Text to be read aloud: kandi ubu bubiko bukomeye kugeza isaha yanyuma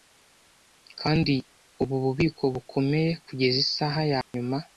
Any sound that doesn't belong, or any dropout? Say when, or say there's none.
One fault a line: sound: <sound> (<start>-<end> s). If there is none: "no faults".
sound: dropout (4.2-4.3 s)